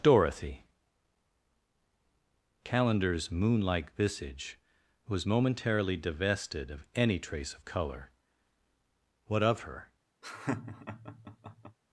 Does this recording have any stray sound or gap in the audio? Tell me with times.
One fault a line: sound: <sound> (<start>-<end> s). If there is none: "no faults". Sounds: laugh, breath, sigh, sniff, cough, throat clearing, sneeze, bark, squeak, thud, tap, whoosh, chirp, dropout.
sound: laugh (10.2-11.8 s)